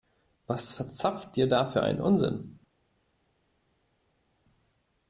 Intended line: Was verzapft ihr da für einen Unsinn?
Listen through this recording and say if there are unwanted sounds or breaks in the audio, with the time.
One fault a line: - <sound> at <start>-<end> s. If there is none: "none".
none